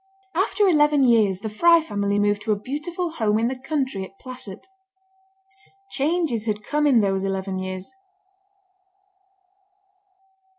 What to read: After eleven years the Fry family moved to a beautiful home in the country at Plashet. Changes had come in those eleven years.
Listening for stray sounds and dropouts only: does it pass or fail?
pass